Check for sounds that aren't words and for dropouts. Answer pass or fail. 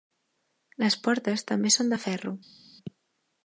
pass